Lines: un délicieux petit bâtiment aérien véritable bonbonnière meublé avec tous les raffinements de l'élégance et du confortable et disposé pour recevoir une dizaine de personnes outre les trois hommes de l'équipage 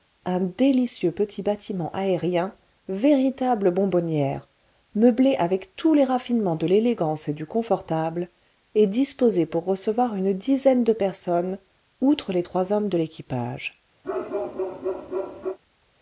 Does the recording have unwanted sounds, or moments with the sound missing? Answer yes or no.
yes